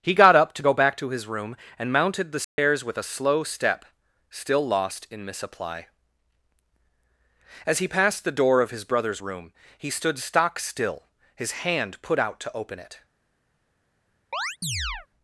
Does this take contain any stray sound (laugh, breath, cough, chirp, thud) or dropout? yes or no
yes